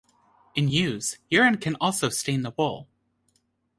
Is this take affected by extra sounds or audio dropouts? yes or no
no